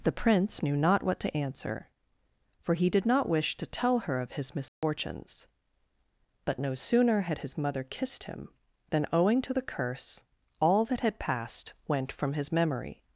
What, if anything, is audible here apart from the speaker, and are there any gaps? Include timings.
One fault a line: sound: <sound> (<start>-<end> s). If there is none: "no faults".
sound: dropout (4.7-4.8 s)